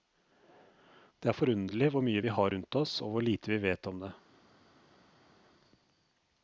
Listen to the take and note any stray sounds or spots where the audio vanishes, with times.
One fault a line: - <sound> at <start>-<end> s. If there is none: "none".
none